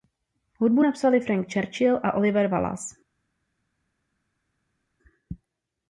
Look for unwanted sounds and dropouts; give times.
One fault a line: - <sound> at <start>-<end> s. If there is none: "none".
none